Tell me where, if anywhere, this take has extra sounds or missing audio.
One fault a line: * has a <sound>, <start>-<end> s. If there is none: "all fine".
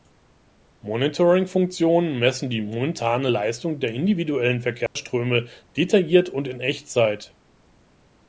* has a dropout, 4.9-5.0 s